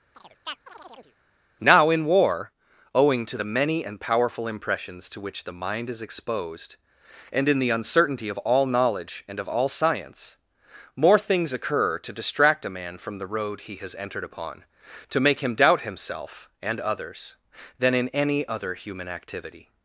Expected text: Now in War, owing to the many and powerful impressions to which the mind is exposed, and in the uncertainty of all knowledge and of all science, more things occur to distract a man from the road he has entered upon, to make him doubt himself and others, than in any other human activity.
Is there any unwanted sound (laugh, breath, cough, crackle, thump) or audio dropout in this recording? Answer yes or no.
yes